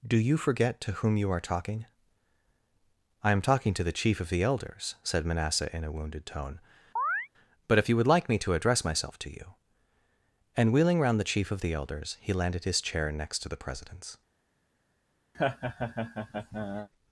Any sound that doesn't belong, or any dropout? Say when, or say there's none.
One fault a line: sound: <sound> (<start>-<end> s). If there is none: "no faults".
sound: chirp (7.0-7.3 s)
sound: laugh (15.3-16.9 s)